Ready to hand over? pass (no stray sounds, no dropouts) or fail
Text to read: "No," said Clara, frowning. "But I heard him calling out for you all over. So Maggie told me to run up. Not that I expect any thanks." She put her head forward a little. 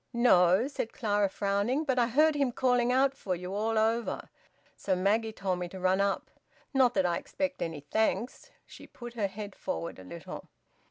pass